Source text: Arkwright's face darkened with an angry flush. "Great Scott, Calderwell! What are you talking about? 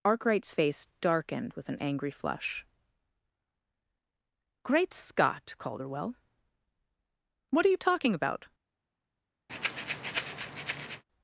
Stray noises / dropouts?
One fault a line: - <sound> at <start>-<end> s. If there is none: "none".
- breath at 9.5-11.0 s